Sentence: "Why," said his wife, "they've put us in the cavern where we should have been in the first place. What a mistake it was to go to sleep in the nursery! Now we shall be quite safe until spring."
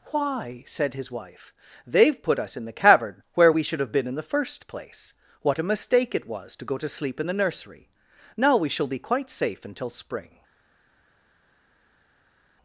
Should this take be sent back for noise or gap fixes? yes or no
no